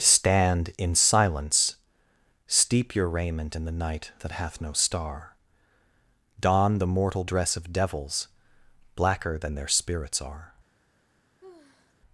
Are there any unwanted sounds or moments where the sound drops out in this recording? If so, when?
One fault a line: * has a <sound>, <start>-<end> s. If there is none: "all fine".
* has a sigh, 11.4-11.9 s